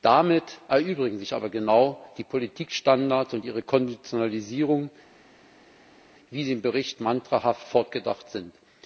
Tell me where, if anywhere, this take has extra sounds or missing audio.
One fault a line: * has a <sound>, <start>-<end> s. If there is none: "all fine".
all fine